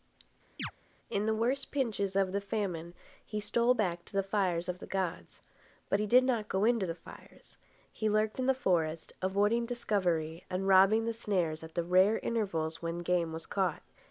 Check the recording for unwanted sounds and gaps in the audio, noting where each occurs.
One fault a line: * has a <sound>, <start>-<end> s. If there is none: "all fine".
* has a chirp, 0.6-0.7 s